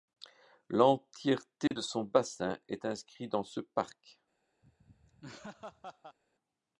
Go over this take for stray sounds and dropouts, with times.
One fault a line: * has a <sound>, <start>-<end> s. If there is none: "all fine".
* has a dropout, 1.7-1.7 s
* has a laugh, 4.6-6.2 s